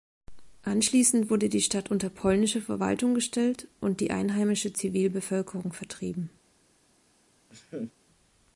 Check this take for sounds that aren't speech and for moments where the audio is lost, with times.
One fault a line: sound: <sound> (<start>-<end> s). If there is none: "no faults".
sound: laugh (7.5-7.9 s)